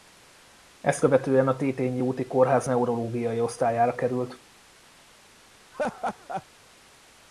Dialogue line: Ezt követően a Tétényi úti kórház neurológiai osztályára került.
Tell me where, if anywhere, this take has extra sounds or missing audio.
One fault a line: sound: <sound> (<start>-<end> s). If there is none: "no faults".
sound: laugh (5.7-6.5 s)